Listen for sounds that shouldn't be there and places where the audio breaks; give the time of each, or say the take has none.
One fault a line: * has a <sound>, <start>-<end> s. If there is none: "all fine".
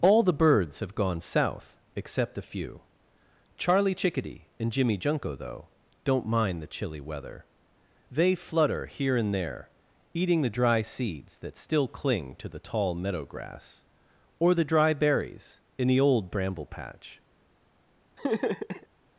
* has a laugh, 18.2-18.9 s